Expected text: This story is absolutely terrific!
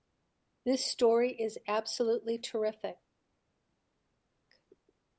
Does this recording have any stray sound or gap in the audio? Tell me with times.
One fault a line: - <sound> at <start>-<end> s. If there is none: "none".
none